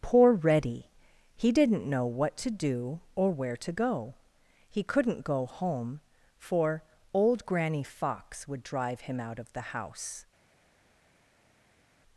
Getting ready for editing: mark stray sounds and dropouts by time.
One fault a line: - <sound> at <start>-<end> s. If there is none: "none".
none